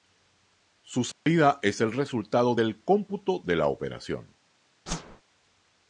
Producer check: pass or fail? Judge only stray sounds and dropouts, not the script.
fail